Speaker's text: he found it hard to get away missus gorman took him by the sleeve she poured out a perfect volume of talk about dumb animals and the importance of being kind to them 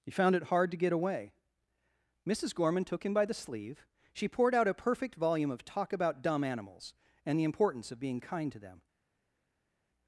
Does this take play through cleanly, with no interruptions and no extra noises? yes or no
yes